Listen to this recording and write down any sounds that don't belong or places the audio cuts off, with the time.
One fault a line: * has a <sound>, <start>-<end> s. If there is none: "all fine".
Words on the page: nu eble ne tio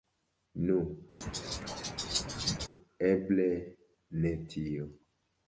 * has a laugh, 1.2-2.7 s